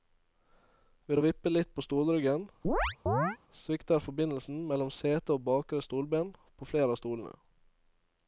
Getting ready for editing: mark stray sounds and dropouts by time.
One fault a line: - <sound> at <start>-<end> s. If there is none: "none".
- chirp at 2.6-3.4 s